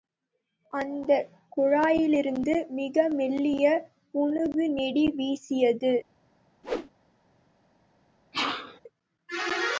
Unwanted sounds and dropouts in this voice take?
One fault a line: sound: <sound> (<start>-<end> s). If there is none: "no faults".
sound: whoosh (6.6-6.9 s)
sound: sneeze (8.3-8.8 s)